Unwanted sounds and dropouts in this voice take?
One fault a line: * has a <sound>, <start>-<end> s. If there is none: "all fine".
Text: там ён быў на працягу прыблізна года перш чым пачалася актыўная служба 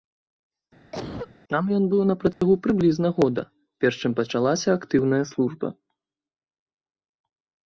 * has a cough, 0.9-1.4 s
* has a dropout, 2.3-2.4 s